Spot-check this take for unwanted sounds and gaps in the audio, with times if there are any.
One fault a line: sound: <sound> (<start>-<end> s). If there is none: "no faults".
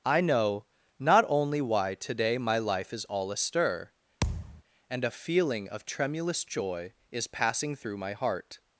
sound: thud (4.2-4.6 s)